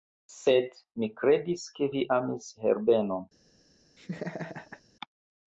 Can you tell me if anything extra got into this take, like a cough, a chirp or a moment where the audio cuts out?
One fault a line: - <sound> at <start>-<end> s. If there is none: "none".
- laugh at 4.0-4.8 s